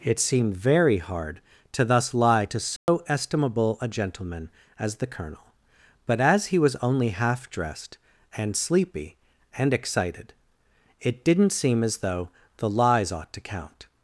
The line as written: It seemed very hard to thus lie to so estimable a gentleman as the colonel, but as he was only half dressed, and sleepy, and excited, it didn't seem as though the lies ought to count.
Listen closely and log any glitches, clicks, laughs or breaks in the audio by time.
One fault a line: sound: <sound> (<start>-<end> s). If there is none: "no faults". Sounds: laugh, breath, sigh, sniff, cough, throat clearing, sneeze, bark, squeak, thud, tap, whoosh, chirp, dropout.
sound: dropout (2.8-2.9 s)